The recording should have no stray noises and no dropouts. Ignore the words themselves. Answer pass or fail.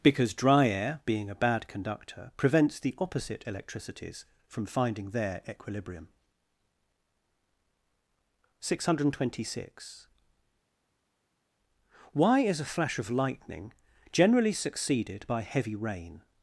pass